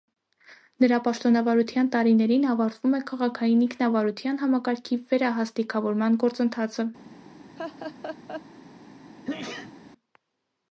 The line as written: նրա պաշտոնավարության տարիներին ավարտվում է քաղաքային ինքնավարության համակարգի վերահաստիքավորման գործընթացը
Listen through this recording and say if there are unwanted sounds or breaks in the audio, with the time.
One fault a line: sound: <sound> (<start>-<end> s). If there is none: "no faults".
sound: laugh (7.6-8.4 s)
sound: sneeze (9.2-9.7 s)